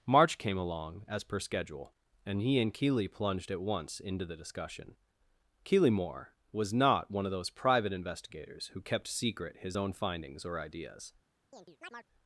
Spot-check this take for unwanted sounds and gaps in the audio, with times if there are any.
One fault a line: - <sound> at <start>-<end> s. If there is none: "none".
- chirp at 11.5-12.1 s